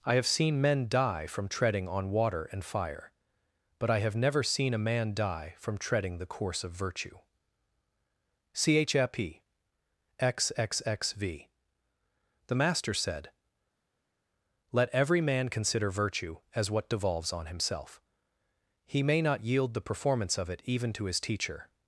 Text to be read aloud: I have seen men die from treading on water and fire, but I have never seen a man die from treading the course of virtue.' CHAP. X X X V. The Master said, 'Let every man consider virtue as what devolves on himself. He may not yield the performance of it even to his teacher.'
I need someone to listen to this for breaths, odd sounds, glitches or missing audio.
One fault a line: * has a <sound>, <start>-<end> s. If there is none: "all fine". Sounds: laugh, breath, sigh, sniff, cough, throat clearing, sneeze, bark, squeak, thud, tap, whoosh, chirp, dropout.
all fine